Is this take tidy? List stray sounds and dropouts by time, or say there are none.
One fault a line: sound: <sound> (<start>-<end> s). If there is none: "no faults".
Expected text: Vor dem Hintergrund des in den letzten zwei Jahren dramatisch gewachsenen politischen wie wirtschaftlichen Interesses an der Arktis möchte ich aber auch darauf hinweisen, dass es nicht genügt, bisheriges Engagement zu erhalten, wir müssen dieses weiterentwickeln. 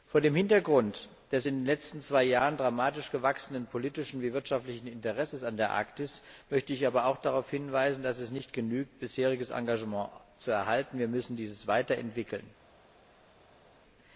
no faults